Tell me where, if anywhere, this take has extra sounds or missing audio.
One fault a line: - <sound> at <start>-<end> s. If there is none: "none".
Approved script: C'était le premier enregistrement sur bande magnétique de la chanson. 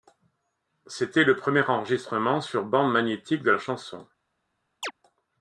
- chirp at 4.8-4.9 s